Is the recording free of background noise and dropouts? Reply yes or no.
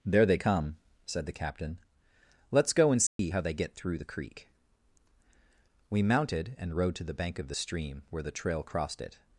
no